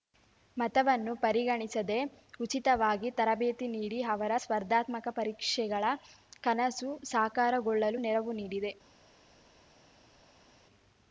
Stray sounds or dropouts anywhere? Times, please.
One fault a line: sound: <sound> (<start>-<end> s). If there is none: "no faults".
no faults